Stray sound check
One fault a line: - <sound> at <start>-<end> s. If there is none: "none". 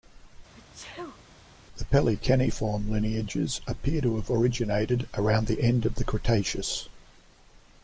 - sneeze at 0.5-1.2 s